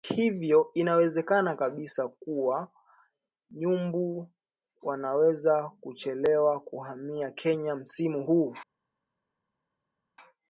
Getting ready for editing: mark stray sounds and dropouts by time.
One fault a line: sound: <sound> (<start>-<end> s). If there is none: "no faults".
no faults